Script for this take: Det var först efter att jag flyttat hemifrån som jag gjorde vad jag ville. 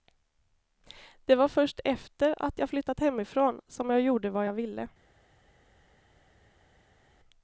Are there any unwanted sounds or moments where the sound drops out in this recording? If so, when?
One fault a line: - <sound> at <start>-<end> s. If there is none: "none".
none